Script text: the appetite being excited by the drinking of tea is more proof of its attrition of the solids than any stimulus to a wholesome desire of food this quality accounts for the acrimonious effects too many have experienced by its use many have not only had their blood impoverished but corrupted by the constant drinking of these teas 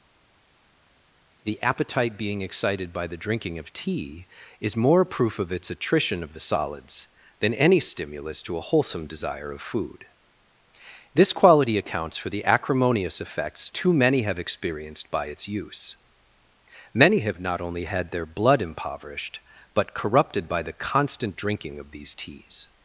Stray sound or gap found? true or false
false